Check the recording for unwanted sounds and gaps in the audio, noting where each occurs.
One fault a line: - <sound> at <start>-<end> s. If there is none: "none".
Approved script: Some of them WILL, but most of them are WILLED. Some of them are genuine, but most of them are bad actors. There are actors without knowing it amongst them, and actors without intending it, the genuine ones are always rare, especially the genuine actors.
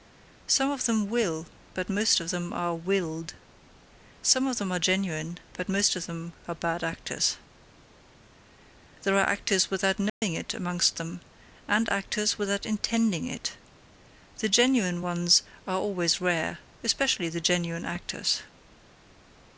- dropout at 10.1-10.2 s